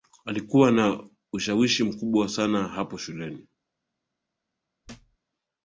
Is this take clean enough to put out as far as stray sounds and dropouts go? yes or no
no